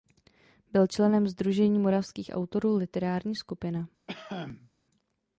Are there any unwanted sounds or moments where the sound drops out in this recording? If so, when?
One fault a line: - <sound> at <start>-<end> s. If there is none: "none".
- cough at 4.1-4.7 s